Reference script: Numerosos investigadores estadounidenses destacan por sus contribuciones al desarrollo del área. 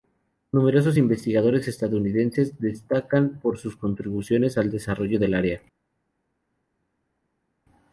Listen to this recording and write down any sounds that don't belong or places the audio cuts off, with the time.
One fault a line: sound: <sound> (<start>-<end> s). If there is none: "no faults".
no faults